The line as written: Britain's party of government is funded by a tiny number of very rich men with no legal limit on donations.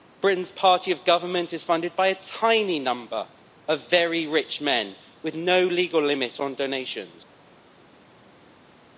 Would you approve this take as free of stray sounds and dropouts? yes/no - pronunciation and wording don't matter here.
yes